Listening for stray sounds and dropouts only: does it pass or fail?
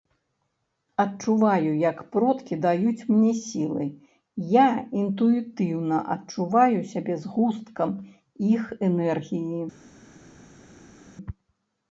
pass